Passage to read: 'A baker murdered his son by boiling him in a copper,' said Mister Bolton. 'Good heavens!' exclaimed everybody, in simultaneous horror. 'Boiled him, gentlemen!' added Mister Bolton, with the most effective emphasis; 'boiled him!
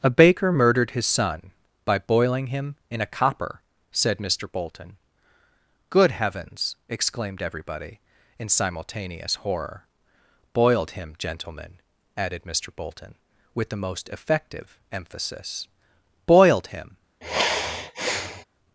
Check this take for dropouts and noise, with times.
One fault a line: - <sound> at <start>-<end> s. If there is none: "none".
- sigh at 17.2-18.4 s